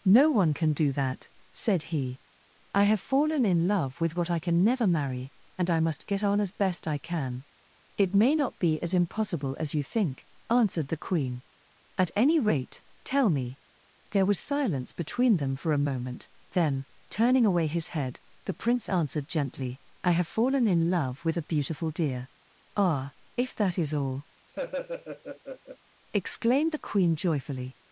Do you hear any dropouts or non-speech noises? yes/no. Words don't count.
yes